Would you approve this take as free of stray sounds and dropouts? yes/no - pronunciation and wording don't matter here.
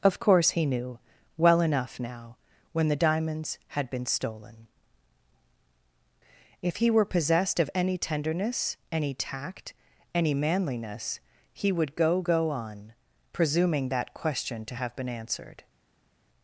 yes